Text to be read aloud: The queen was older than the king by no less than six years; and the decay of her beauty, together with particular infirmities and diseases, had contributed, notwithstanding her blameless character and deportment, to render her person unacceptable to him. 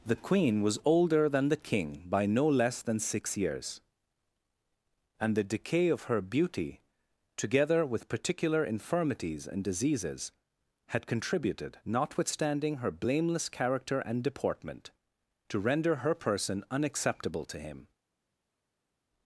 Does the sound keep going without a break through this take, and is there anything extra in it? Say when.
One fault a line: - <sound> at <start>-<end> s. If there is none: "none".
none